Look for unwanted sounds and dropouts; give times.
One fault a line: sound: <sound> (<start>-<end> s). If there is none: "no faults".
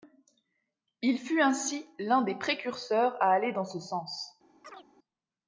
sound: chirp (4.6-4.9 s)